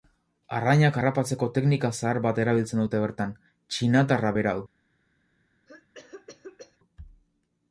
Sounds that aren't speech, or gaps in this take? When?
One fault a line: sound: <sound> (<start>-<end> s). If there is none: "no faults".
sound: cough (5.7-6.8 s)